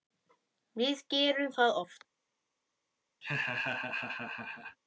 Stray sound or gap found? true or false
true